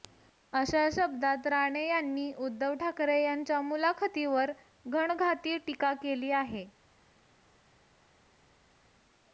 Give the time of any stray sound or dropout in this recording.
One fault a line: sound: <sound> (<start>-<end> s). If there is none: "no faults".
no faults